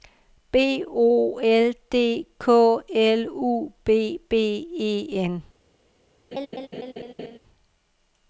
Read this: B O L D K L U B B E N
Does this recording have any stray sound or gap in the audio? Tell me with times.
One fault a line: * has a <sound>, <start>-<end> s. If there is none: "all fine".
* has a laugh, 6.3-7.4 s